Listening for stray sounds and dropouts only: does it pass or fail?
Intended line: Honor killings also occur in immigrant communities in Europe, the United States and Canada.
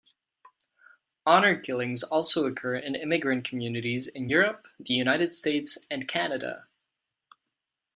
pass